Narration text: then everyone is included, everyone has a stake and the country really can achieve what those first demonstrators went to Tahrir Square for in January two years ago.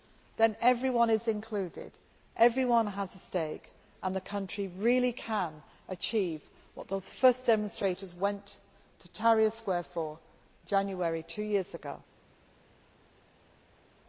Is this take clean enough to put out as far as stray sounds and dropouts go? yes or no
yes